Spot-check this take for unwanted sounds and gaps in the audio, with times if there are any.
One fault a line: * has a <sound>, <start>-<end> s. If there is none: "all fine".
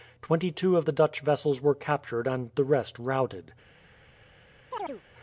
* has a chirp, 4.7-5.0 s